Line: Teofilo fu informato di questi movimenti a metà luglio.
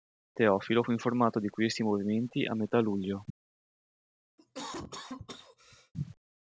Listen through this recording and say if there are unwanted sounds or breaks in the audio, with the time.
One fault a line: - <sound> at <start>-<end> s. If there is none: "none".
- cough at 4.4-5.9 s